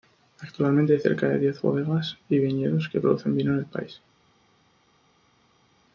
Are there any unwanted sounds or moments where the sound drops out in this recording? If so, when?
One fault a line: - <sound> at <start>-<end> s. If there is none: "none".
none